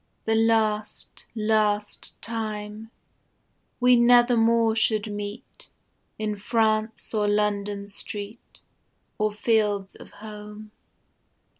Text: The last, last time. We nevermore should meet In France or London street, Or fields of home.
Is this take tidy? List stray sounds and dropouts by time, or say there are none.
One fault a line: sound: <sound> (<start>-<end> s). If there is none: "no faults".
no faults